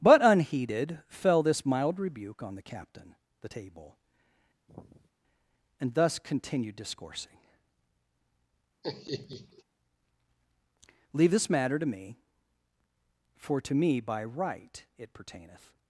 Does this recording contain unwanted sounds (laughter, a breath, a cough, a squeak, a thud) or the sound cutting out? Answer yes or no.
yes